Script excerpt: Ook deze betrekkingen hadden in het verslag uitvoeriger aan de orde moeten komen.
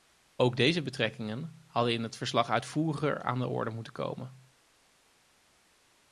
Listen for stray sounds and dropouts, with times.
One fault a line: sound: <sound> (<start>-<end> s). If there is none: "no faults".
no faults